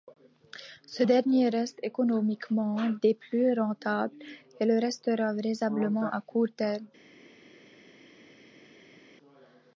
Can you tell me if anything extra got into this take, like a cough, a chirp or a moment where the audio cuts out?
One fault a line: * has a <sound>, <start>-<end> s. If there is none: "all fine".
all fine